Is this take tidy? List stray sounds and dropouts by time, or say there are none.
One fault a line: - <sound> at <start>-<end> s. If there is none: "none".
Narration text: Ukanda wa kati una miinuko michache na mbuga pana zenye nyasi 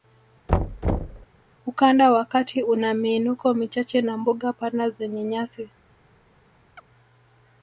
- thud at 0.5-1.3 s
- chirp at 6.8-6.9 s